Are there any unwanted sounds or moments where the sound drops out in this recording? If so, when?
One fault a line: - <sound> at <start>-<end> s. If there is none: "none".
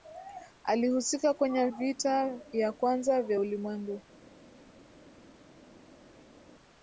none